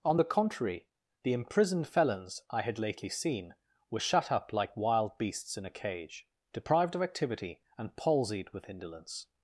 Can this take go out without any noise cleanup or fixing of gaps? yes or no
yes